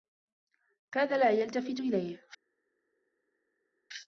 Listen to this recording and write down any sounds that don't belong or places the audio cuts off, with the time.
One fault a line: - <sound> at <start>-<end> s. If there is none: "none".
none